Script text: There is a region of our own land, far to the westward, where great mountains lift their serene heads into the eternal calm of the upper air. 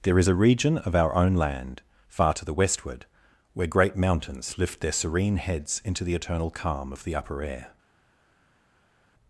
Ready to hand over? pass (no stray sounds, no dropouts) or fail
pass